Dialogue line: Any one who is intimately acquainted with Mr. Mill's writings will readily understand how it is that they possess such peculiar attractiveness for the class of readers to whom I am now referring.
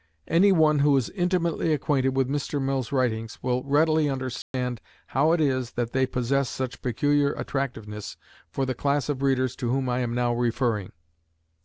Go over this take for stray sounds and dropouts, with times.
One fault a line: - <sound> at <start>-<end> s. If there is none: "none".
- dropout at 4.4-4.5 s